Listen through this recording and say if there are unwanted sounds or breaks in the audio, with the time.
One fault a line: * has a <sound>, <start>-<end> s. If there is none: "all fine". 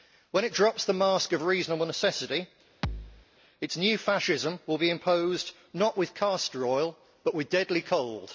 * has a thud, 2.8-3.3 s